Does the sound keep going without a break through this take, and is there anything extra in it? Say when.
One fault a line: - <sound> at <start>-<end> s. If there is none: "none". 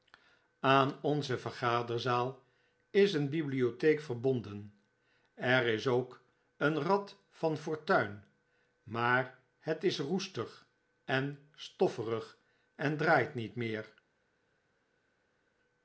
none